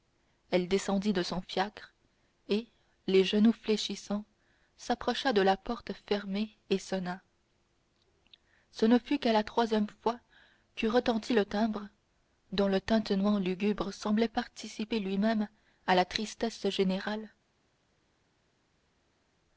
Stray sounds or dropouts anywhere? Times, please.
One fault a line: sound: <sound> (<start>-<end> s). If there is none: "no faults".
no faults